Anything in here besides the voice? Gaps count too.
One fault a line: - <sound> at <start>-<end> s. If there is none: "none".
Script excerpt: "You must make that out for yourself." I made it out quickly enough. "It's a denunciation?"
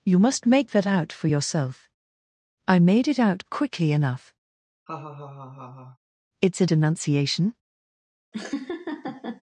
- laugh at 4.9-6.0 s
- laugh at 8.3-9.4 s